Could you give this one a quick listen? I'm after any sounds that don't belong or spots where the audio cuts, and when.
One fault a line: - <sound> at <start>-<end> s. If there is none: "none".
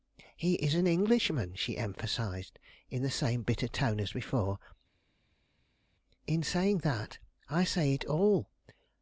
none